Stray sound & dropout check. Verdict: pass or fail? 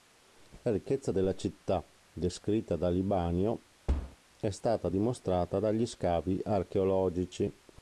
fail